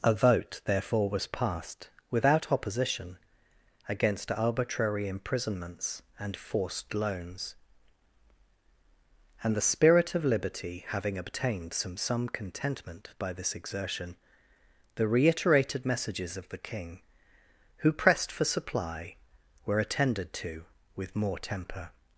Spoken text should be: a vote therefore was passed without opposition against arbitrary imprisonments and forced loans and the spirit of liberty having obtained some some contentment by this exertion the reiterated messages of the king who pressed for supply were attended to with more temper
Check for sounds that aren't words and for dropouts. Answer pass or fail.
pass